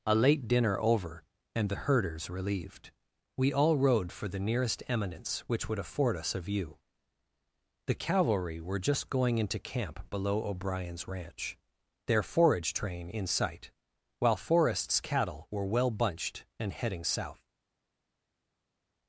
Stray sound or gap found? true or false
false